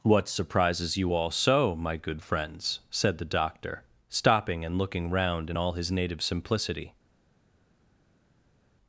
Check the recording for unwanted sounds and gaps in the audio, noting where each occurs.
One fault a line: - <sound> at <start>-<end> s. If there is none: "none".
none